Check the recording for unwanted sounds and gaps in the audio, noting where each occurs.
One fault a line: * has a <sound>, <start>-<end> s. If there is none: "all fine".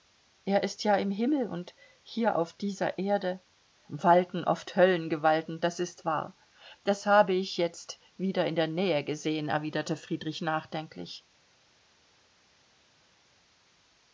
all fine